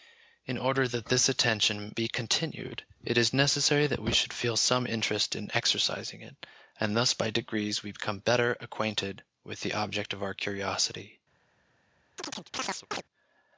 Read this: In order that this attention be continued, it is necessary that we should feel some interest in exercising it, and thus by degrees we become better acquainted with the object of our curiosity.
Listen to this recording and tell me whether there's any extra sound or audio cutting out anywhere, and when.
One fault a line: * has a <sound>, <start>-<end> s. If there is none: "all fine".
* has a chirp, 12.2-13.0 s